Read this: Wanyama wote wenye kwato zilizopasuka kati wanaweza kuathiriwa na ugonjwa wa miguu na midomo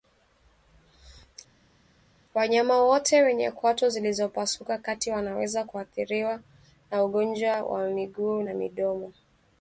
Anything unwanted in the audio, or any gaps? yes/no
no